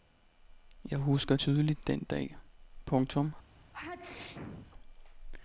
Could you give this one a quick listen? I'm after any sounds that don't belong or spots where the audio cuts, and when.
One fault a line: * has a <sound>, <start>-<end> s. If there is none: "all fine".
* has a sneeze, 3.7-4.7 s